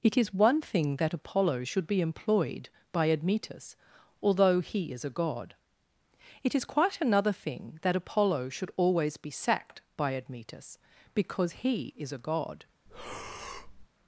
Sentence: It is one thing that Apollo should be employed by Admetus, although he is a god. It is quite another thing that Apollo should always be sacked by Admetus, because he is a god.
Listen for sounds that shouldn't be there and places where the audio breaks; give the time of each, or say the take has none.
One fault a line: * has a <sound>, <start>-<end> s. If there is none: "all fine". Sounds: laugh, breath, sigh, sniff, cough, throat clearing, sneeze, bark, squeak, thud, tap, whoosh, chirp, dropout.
* has a breath, 12.9-13.9 s